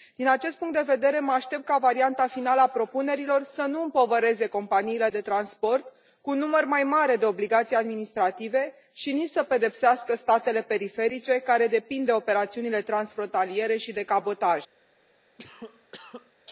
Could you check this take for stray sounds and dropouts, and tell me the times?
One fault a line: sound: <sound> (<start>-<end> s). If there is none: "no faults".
sound: cough (15.4-16.3 s)